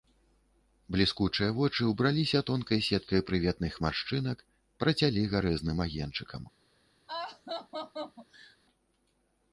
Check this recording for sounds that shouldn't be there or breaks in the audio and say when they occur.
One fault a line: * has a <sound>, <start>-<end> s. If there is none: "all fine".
* has a laugh, 7.1-8.6 s